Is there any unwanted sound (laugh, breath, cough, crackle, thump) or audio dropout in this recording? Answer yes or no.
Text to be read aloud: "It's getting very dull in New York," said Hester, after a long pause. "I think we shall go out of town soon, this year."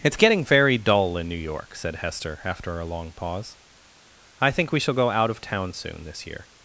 no